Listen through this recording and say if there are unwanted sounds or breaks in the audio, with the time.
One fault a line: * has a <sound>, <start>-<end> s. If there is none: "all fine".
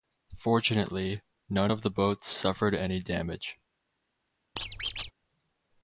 * has a squeak, 4.6-5.1 s